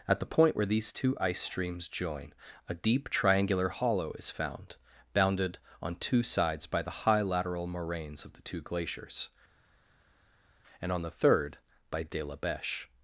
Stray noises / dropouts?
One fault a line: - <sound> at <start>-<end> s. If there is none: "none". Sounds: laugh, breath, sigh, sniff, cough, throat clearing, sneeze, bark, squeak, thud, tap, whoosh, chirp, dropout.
none